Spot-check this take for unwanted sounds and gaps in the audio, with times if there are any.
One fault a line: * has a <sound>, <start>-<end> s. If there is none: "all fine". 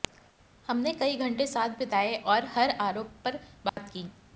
* has a dropout, 3.7-3.8 s